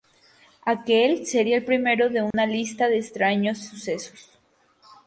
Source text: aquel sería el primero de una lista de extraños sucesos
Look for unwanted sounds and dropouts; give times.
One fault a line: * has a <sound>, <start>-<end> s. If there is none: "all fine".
* has a dropout, 2.3-2.3 s